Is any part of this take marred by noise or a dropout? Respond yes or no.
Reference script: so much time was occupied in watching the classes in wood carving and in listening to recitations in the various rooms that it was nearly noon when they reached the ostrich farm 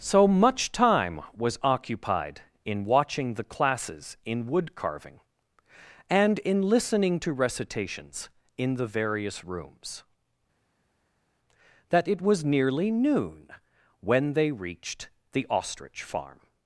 no